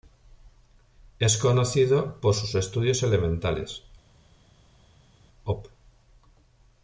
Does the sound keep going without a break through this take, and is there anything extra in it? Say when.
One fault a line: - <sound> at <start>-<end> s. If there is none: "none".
none